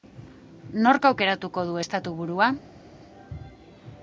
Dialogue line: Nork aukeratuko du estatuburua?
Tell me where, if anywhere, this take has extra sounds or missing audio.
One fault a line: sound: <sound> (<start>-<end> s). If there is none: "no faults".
no faults